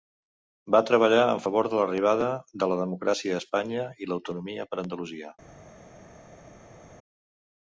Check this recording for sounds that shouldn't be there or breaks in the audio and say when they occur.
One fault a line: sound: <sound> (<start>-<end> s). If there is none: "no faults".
no faults